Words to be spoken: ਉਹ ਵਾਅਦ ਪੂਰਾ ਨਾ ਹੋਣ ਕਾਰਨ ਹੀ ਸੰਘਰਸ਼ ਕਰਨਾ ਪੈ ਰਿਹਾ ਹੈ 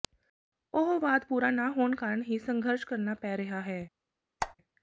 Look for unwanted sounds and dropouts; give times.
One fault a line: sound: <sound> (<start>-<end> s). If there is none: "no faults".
sound: squeak (4.4-4.6 s)